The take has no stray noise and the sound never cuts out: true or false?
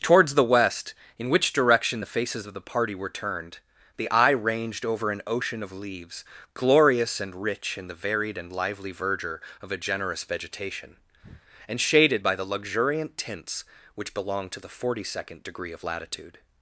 false